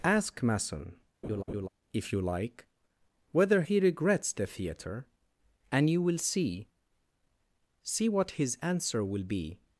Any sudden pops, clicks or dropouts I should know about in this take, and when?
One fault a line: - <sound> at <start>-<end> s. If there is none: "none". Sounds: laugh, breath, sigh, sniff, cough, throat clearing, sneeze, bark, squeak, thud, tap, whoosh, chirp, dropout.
- laugh at 1.2-1.7 s